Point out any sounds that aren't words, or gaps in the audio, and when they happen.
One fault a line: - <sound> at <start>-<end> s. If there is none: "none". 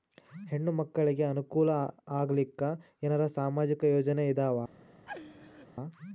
- laugh at 5.1-5.7 s